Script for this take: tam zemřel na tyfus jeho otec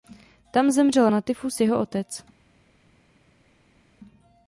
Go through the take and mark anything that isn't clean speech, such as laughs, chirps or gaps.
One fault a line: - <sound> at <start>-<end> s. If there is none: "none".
none